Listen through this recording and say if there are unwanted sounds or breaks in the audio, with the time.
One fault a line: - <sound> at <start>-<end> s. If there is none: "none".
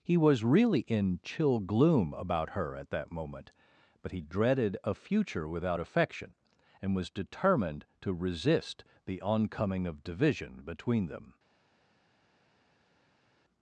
none